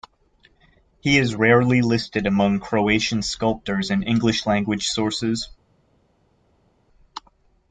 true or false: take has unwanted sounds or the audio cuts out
false